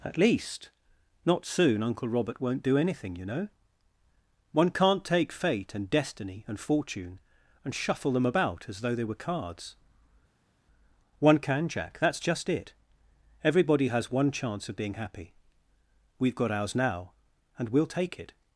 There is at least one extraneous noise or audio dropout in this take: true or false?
false